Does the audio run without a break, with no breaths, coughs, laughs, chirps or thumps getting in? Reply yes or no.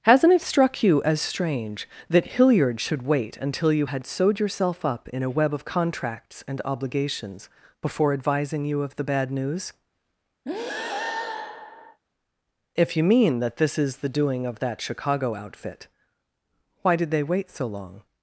no